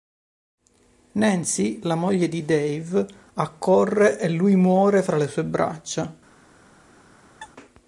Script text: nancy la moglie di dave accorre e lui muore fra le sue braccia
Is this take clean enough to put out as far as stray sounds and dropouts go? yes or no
no